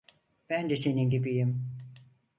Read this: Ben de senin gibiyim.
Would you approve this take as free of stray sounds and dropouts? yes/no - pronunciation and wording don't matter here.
yes